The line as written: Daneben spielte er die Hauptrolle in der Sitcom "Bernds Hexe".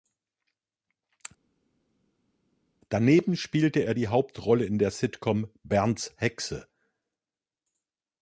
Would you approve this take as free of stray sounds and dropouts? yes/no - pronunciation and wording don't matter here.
yes